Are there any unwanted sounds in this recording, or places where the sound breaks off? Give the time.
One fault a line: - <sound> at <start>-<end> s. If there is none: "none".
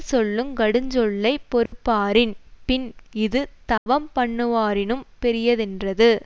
- dropout at 1.7-1.7 s
- dropout at 3.8-3.9 s